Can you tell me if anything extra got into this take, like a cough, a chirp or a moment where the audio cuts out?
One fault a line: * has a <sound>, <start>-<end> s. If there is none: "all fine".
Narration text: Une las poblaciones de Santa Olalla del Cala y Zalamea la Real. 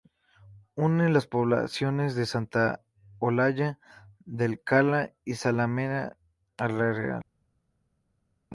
all fine